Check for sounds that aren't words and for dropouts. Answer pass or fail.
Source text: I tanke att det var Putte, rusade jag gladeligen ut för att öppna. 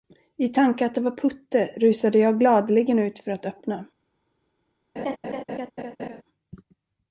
fail